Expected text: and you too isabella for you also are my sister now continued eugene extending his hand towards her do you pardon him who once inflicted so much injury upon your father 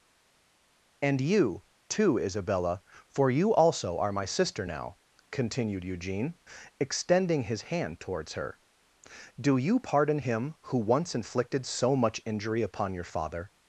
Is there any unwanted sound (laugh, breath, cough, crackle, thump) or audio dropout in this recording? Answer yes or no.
no